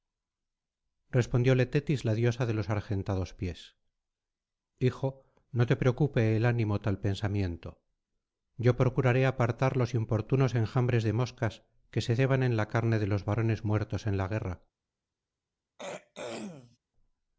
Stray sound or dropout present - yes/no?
yes